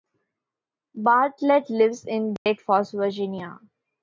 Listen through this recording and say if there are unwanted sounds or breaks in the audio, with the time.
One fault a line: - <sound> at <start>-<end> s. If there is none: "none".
- dropout at 2.4-2.5 s